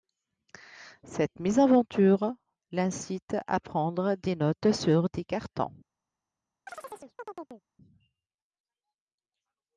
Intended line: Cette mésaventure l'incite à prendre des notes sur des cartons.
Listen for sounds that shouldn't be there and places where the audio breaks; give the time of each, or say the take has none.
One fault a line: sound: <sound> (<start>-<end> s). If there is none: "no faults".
sound: chirp (6.7-7.6 s)